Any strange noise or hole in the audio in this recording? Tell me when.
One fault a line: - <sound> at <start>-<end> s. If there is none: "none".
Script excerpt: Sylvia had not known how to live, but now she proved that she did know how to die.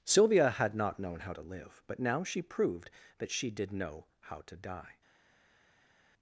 none